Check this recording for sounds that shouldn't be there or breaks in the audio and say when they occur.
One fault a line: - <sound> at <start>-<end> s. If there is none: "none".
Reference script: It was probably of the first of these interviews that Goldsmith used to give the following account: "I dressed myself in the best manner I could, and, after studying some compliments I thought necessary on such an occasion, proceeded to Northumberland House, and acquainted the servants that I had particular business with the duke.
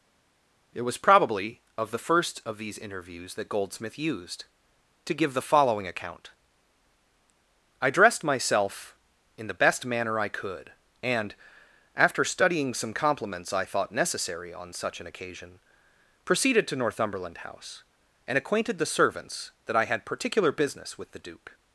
none